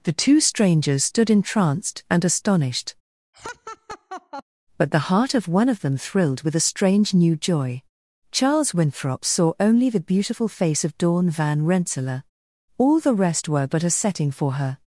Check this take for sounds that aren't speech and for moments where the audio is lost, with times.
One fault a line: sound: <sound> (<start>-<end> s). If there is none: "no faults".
sound: laugh (3.3-4.4 s)